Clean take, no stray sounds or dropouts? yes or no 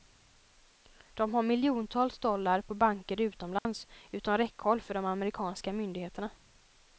no